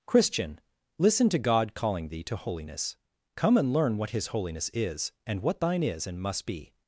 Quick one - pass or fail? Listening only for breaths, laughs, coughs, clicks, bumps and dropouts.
pass